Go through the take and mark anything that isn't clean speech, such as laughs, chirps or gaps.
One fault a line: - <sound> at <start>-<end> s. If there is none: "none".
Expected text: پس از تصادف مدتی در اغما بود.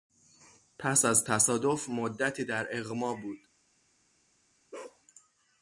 - bark at 4.7-5.0 s